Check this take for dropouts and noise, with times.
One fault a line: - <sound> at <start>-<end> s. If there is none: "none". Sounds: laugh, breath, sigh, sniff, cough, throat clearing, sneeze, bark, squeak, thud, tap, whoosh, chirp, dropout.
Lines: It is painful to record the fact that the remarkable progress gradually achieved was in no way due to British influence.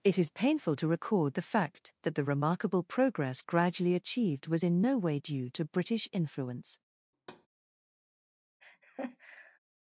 - thud at 7.1-7.5 s
- laugh at 8.6-9.6 s